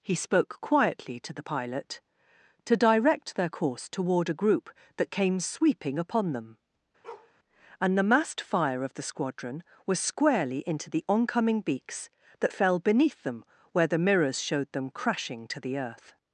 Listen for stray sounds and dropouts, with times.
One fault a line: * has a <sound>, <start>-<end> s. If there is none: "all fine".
* has a bark, 7.0-7.3 s